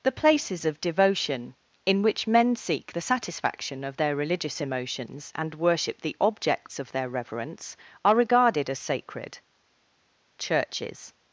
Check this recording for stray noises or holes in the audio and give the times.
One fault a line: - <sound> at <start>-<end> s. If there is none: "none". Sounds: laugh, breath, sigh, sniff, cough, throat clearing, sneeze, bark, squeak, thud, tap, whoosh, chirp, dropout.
none